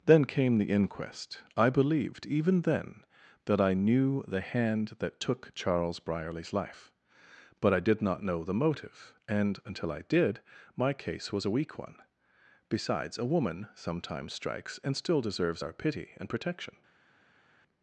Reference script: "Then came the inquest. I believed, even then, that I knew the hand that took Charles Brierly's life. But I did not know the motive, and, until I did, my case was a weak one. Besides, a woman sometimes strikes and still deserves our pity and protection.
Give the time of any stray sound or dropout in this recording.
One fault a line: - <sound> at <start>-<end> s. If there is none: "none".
none